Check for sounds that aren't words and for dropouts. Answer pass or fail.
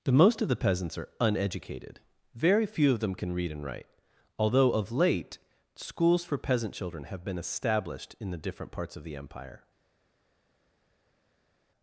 pass